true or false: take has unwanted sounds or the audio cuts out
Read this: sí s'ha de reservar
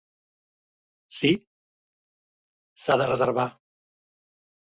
false